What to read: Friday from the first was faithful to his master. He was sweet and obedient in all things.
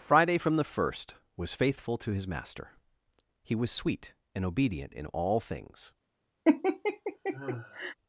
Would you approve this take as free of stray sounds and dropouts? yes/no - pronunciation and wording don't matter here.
no